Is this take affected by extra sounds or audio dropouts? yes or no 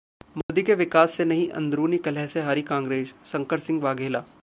yes